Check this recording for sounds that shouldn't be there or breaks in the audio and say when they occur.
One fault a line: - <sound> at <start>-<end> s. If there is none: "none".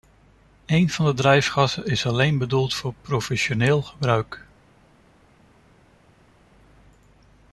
none